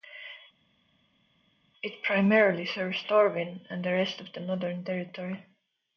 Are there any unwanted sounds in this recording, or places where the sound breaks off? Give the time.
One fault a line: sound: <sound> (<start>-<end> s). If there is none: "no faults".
no faults